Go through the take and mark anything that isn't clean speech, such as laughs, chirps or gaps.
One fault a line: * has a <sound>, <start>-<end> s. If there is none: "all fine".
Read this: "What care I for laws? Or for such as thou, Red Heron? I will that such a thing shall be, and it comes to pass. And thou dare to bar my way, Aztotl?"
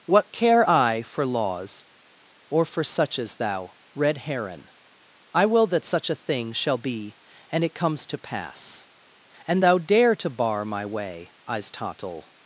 all fine